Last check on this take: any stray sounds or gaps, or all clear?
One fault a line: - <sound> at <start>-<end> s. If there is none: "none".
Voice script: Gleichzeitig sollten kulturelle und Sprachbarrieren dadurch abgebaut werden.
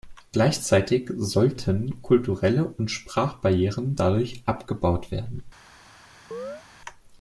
- chirp at 6.3-6.6 s